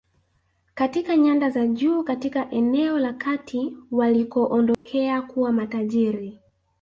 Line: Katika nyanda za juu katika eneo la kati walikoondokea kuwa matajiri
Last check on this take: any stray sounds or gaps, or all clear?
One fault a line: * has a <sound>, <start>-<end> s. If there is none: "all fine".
* has a dropout, 4.7-4.9 s